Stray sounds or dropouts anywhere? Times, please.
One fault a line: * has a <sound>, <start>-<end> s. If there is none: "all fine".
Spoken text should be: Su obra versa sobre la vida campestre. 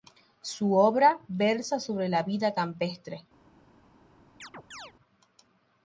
* has a chirp, 4.4-4.9 s